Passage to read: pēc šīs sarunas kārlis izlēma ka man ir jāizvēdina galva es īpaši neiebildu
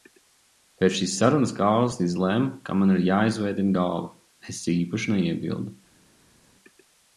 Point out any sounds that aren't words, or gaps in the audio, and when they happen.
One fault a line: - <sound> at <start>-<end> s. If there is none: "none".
none